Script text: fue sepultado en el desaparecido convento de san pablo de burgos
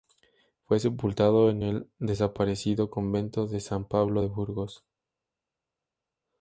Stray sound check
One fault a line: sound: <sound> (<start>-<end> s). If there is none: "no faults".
no faults